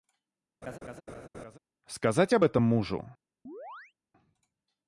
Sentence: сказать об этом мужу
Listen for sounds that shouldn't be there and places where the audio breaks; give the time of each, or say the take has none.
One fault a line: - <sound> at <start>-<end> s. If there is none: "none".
- laugh at 0.6-1.6 s
- chirp at 3.5-3.9 s